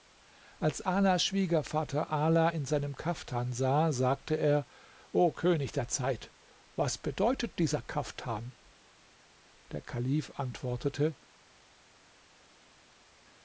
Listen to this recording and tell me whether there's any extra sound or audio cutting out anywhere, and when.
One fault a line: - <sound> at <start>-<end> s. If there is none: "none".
none